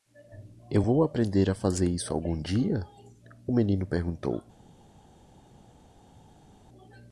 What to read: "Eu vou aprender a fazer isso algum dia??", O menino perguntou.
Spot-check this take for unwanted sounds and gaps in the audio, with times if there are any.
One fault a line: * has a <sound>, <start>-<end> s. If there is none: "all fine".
all fine